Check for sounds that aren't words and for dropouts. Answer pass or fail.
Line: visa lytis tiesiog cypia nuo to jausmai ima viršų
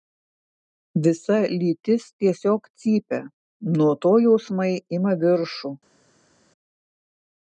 pass